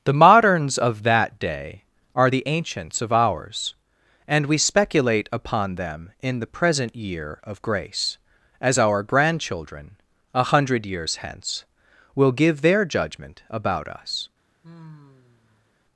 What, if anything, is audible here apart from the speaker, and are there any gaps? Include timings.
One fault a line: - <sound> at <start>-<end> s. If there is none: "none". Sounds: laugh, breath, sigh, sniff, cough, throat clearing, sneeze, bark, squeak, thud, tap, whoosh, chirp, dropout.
- sigh at 14.6-15.7 s